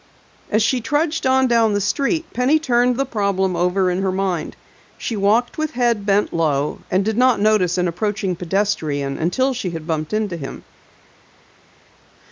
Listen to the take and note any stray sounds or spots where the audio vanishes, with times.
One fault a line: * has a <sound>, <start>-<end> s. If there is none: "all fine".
all fine